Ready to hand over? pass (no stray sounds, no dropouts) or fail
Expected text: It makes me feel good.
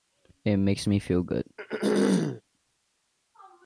fail